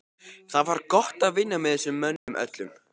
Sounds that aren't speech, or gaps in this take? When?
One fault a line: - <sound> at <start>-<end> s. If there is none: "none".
- dropout at 2.2-2.3 s